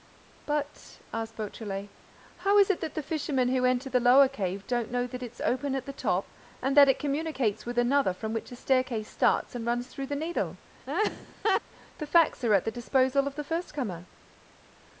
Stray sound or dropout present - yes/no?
yes